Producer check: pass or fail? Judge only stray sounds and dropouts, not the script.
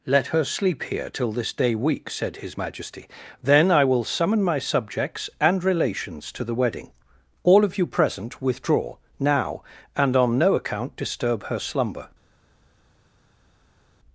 pass